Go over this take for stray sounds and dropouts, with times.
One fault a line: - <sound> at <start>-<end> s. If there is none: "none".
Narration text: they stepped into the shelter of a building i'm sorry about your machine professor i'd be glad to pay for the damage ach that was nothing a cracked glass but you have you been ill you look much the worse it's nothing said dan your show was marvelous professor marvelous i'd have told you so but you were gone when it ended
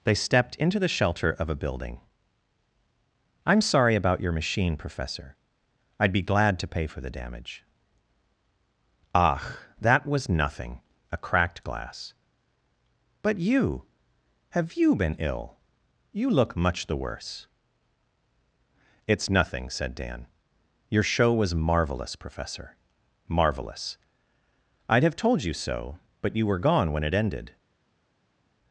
none